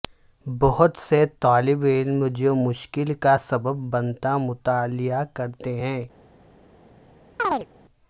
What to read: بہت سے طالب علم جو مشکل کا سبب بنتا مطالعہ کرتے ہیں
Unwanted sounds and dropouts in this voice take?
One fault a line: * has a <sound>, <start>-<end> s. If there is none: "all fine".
* has a chirp, 7.4-7.7 s